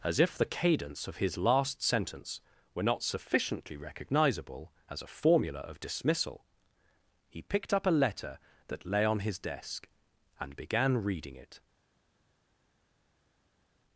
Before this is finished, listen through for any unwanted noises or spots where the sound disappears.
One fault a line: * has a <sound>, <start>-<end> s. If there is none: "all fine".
all fine